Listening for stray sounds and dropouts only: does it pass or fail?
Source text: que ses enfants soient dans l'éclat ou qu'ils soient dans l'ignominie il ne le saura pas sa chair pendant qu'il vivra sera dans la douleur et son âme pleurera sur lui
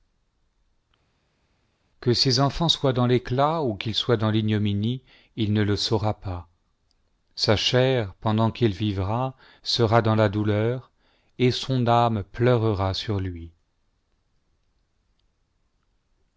pass